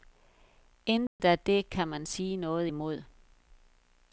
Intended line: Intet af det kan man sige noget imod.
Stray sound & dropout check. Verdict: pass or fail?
fail